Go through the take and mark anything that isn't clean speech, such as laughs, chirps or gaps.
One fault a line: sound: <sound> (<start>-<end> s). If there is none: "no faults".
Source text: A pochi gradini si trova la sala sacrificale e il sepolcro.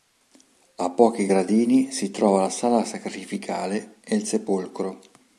no faults